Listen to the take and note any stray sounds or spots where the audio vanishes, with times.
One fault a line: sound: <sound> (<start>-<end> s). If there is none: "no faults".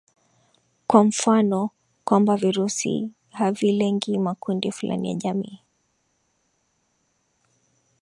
no faults